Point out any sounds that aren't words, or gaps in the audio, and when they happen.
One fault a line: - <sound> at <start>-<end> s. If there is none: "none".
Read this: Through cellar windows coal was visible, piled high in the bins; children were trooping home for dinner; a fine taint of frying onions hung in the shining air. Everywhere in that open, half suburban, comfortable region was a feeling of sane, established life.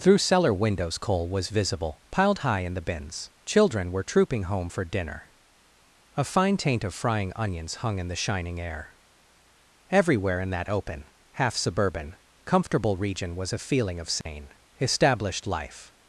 - dropout at 14.2-14.3 s